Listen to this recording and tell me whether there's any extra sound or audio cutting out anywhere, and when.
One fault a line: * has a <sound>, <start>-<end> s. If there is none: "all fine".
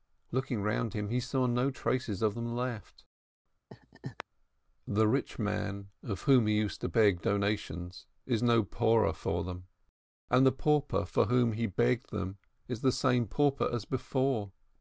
* has a laugh, 3.7-4.2 s